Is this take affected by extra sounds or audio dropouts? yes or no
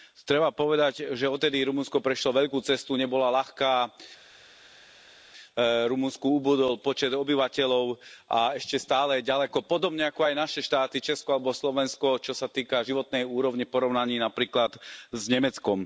no